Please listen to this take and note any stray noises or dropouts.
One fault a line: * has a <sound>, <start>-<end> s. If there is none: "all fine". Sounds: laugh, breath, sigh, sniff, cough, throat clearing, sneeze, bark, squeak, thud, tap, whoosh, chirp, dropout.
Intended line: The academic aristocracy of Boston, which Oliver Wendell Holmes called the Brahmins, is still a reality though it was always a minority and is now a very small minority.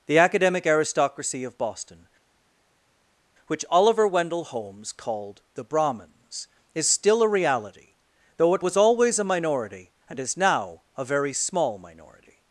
all fine